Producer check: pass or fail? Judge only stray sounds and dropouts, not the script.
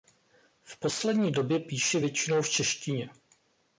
pass